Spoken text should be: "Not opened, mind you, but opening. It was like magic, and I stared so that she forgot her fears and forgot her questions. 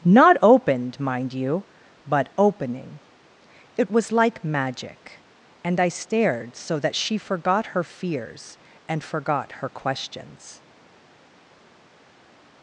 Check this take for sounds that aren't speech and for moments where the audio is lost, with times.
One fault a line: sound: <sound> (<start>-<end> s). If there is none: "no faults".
no faults